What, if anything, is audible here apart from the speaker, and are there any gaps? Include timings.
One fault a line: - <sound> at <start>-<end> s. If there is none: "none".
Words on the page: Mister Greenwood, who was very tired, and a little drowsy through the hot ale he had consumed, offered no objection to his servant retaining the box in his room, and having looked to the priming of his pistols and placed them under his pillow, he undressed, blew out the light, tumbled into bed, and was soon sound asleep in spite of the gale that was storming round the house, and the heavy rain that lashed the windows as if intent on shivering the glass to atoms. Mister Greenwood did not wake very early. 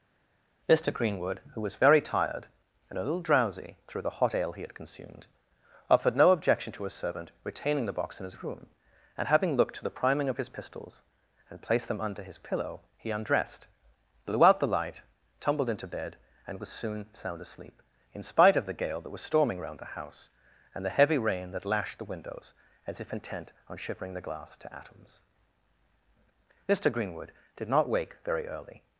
none